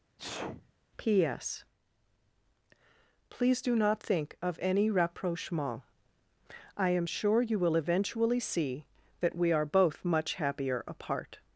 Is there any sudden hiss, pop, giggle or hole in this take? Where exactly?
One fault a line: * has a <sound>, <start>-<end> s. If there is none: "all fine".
* has a sneeze, 0.2-0.7 s